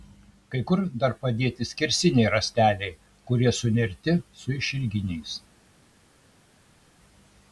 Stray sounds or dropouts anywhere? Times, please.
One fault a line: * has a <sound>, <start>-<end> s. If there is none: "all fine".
all fine